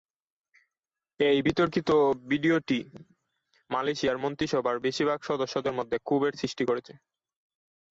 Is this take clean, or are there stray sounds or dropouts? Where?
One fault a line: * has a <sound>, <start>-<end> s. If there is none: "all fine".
all fine